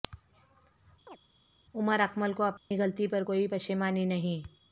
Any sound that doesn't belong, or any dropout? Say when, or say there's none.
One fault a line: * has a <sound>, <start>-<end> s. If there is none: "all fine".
* has a chirp, 1.1-1.2 s
* has a dropout, 2.6-2.7 s